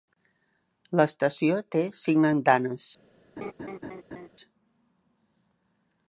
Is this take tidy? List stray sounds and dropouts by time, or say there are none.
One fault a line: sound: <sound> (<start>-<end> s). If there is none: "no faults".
sound: laugh (3.4-4.3 s)